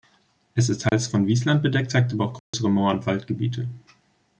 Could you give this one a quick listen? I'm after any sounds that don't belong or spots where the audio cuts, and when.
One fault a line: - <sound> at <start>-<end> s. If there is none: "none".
- dropout at 0.9-0.9 s
- dropout at 2.4-2.5 s